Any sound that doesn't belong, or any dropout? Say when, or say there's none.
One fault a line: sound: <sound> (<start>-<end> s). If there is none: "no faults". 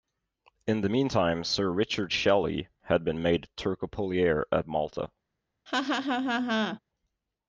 sound: laugh (5.7-6.8 s)